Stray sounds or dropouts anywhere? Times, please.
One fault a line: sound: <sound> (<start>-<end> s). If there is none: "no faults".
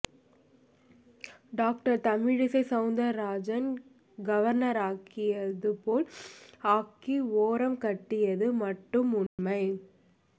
sound: dropout (9.3-9.4 s)